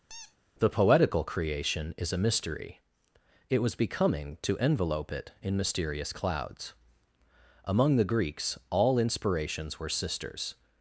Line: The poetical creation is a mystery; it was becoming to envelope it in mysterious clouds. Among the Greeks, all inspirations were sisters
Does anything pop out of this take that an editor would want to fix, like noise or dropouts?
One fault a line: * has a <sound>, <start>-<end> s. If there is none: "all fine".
* has a squeak, 0.1-0.4 s